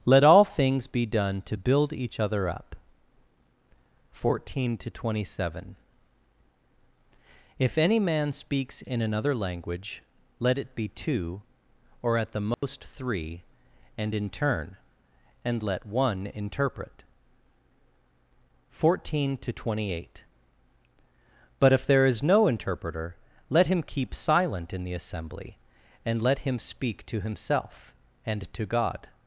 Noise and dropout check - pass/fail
fail